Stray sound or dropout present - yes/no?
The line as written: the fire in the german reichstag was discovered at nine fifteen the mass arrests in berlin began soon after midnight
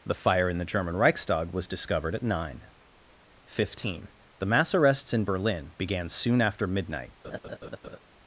yes